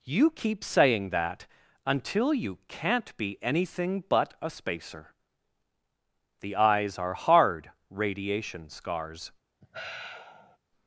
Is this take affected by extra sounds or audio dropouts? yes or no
yes